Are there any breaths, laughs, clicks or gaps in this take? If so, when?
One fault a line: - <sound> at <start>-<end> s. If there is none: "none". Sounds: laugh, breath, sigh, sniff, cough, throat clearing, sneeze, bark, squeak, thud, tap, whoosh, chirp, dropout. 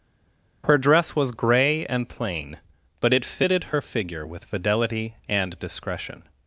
none